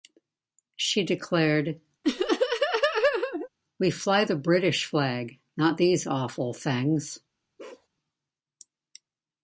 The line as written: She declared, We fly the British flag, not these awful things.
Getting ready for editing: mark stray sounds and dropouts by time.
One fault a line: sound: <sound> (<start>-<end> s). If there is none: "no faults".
sound: laugh (2.0-3.5 s)
sound: bark (7.6-7.9 s)